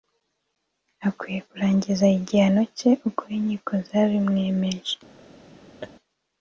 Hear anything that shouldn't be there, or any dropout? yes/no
yes